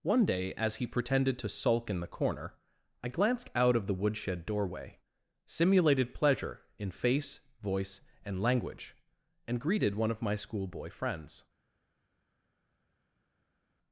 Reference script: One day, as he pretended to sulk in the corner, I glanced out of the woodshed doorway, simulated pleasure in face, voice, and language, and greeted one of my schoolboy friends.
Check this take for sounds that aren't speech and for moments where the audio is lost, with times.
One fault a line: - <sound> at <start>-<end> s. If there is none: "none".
none